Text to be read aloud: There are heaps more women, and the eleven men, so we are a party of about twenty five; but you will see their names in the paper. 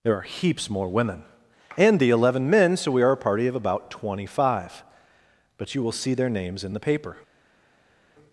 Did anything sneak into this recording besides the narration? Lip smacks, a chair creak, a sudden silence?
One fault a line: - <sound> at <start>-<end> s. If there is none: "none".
none